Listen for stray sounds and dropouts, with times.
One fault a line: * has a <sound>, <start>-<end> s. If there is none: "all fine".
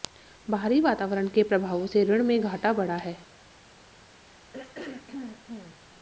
* has a throat clearing, 4.5-5.8 s